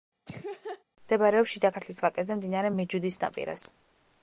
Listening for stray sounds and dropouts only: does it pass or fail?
fail